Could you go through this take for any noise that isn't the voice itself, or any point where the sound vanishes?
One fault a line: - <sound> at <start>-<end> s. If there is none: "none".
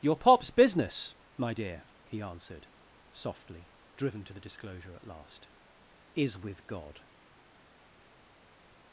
none